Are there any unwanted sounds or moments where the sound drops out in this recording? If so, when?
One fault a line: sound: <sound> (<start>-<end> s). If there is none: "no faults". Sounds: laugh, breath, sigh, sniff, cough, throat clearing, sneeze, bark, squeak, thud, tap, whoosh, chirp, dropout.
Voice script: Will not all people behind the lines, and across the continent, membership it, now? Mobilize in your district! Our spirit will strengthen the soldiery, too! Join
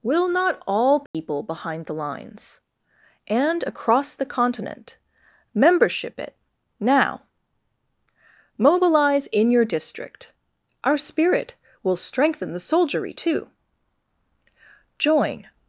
sound: dropout (1.1-1.1 s)